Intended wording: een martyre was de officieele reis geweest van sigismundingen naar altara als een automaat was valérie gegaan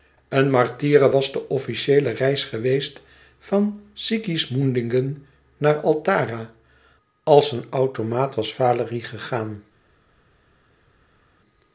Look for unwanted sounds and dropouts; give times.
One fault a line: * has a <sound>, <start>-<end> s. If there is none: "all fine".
all fine